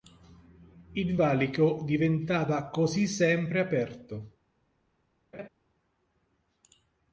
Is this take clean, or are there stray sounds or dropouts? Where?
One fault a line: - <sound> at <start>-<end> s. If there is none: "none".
- laugh at 5.3-5.5 s